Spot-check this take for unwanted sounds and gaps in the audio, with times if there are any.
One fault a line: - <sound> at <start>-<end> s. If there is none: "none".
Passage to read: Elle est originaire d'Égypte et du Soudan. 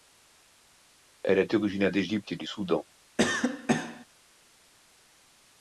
- cough at 3.2-4.1 s